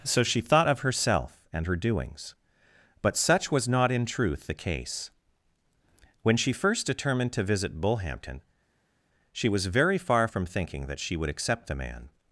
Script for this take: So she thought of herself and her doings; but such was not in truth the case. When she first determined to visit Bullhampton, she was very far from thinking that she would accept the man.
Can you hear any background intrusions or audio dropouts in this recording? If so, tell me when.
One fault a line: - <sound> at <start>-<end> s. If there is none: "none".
none